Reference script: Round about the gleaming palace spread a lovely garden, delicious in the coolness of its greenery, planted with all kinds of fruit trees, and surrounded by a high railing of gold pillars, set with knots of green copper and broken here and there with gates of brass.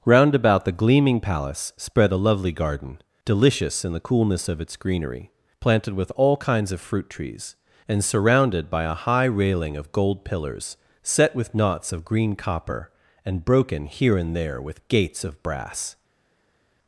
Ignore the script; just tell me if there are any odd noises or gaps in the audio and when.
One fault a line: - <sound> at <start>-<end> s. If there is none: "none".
none